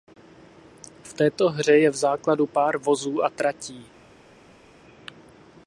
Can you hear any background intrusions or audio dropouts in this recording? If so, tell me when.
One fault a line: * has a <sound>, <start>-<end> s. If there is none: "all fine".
all fine